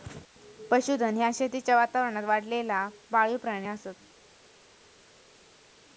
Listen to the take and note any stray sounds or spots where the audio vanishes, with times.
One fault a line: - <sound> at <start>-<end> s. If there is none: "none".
none